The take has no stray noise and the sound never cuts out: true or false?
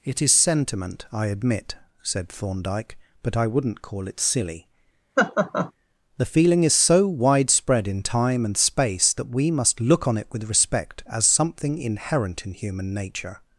false